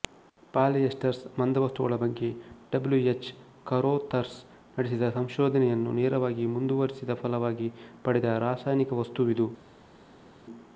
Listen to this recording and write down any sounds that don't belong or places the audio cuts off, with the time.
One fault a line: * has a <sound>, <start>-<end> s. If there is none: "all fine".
all fine